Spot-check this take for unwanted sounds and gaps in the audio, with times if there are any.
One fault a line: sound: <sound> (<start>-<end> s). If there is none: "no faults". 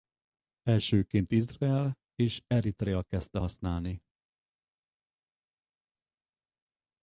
no faults